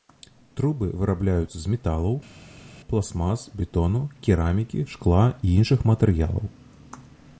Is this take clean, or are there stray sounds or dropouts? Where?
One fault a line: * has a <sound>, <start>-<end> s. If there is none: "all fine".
all fine